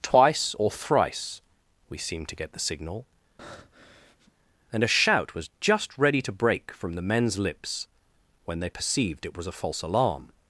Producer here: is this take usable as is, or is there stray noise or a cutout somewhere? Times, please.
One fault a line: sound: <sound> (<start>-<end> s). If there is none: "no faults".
sound: breath (3.4-4.3 s)